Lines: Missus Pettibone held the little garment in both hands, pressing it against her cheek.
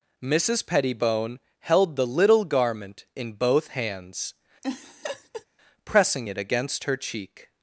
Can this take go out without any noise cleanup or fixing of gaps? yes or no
no